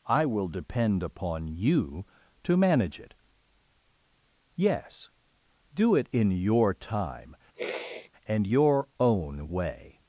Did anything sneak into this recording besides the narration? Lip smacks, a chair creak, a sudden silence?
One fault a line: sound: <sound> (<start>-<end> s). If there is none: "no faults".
sound: sniff (7.5-8.1 s)